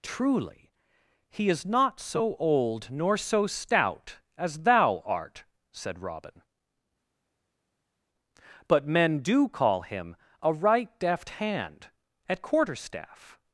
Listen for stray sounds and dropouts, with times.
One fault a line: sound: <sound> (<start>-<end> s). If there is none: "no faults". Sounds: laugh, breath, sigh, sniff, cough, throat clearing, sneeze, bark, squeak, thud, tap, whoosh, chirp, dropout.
no faults